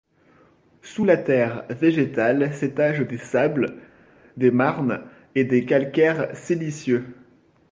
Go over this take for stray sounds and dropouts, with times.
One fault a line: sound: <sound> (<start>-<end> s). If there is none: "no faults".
no faults